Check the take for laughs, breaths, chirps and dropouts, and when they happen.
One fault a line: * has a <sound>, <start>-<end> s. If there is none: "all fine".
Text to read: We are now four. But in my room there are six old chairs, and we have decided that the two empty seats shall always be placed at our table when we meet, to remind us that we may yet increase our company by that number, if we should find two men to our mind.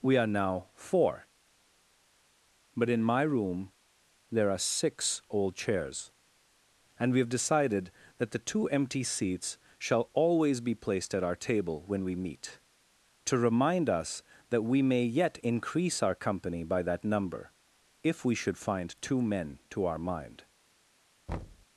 * has a thud, 21.3-21.7 s